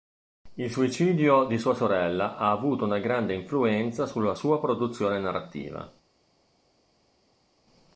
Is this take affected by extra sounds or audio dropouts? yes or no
no